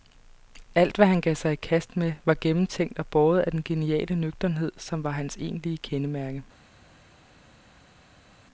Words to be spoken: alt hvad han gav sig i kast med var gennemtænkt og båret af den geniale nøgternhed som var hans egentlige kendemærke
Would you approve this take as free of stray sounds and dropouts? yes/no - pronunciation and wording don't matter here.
yes